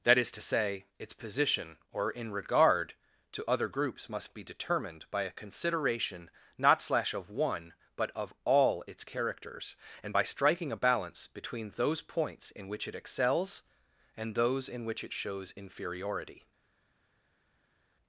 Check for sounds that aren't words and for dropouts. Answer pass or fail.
pass